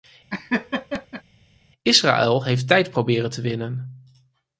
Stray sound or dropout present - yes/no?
yes